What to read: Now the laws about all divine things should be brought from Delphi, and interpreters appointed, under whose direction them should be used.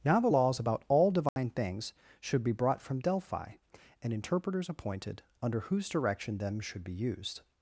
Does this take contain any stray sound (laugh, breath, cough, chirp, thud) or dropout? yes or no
yes